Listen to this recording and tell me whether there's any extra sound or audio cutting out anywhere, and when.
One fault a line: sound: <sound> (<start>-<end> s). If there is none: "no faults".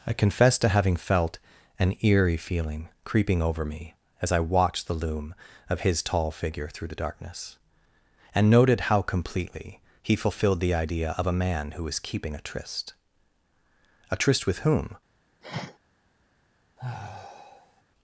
sound: sniff (15.4-15.8 s)
sound: sigh (16.8-17.8 s)